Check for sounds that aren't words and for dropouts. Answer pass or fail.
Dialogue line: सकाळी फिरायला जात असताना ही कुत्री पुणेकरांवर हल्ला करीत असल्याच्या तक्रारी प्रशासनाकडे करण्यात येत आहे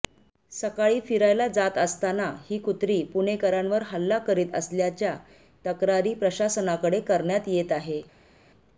pass